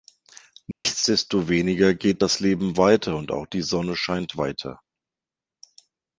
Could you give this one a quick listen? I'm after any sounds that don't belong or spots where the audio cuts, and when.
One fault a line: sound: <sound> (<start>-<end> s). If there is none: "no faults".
sound: dropout (0.7-0.9 s)